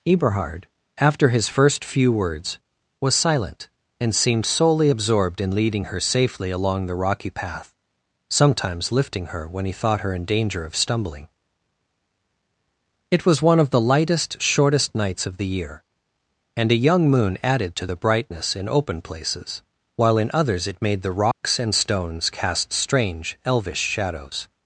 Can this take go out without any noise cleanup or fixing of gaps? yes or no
no